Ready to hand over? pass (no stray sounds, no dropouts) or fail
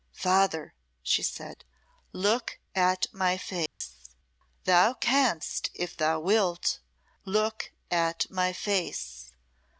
fail